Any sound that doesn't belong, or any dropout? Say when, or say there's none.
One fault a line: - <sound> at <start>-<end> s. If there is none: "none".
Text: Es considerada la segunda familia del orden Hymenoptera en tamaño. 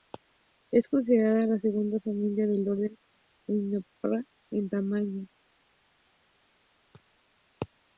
none